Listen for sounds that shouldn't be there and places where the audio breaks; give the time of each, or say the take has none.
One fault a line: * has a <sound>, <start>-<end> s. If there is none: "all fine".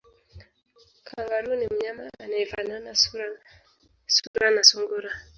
* has a dropout, 4.3-4.3 s